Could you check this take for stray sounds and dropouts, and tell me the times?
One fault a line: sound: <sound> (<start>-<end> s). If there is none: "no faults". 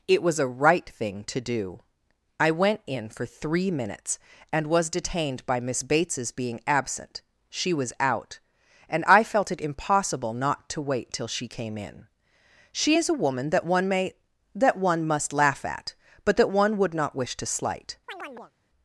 sound: chirp (18.1-18.5 s)